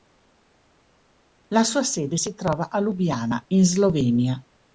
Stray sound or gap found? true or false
false